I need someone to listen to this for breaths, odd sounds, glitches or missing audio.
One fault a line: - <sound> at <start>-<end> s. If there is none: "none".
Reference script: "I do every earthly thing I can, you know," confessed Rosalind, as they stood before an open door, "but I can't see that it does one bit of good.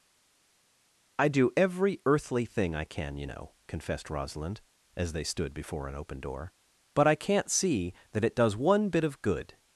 none